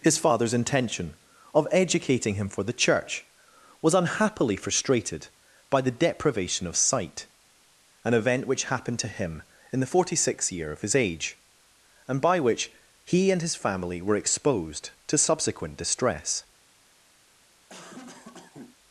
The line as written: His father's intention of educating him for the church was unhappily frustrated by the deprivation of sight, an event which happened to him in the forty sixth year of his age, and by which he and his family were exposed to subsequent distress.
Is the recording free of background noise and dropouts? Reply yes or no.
no